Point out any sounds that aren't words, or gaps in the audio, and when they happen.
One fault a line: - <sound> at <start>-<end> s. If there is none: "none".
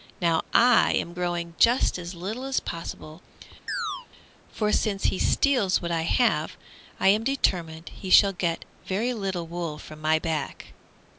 - chirp at 3.7-4.1 s